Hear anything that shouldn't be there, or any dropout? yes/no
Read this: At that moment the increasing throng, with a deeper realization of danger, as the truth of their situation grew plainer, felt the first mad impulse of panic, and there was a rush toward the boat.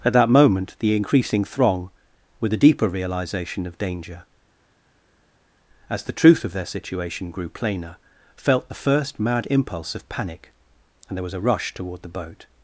no